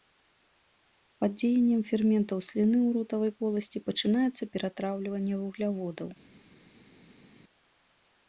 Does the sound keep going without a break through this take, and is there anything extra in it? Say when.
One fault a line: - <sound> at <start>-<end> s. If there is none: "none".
none